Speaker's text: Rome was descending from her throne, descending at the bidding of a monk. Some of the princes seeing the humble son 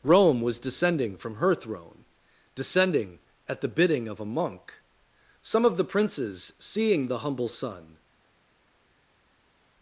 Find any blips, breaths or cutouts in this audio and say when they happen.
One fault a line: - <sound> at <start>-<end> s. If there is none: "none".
none